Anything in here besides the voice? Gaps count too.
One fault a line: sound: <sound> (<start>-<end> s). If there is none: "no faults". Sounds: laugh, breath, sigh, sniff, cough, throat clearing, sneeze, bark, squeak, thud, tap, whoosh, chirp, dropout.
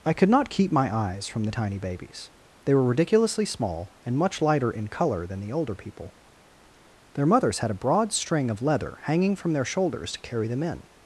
no faults